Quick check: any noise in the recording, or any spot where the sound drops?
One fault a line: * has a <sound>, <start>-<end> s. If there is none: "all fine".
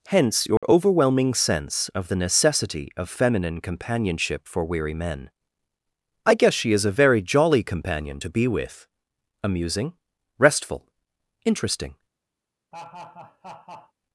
* has a dropout, 0.6-0.6 s
* has a laugh, 12.7-13.9 s